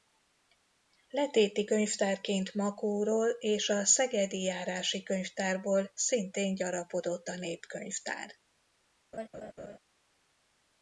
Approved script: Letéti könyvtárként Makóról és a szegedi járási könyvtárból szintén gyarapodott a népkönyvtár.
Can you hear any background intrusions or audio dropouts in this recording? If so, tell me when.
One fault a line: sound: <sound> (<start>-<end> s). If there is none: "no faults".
sound: laugh (9.1-9.8 s)